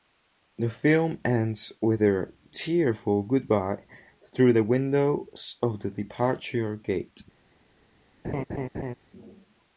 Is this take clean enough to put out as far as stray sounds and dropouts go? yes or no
no